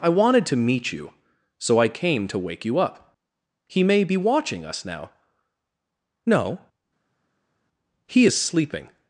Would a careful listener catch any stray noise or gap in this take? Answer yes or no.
no